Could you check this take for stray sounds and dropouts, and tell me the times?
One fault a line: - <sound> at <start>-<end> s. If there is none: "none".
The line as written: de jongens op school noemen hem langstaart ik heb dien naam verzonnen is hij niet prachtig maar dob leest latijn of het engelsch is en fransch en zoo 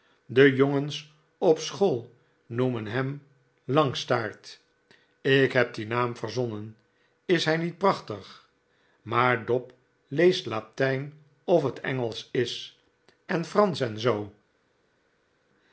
none